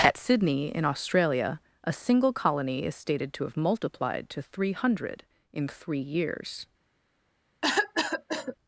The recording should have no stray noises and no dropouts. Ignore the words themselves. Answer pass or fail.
fail